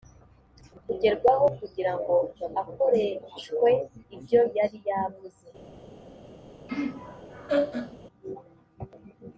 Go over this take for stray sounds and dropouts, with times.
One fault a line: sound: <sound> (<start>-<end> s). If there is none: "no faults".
sound: laugh (6.7-8.0 s)